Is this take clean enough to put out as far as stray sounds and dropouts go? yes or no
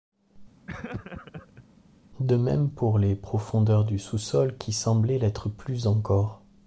no